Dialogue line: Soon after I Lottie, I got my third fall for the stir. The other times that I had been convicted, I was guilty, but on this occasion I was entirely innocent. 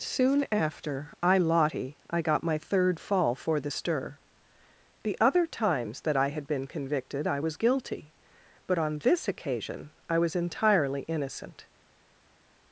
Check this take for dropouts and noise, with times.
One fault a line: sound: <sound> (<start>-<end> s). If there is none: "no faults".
no faults